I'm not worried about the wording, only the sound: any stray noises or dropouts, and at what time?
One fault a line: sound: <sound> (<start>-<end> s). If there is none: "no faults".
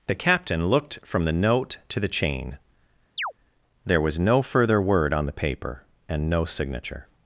sound: chirp (3.2-3.3 s)